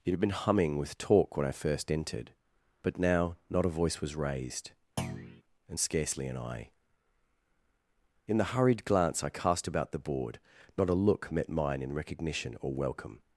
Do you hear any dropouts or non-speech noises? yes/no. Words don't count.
yes